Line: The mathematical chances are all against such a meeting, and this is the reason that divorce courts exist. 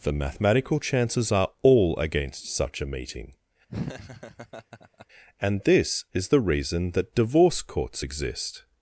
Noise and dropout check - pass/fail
fail